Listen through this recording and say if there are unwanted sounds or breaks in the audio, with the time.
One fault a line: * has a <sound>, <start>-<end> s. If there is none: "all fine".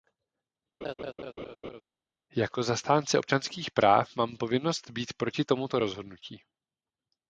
* has a laugh, 0.8-1.8 s